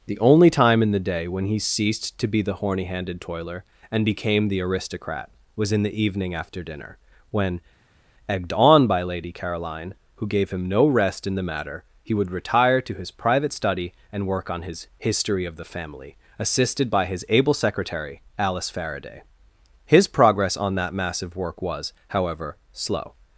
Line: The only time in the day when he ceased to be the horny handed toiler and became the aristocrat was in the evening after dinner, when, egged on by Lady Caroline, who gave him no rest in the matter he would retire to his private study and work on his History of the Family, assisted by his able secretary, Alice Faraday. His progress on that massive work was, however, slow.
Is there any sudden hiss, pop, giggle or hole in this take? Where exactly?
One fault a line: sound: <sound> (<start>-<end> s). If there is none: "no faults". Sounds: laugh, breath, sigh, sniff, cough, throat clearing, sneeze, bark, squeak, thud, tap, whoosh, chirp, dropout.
no faults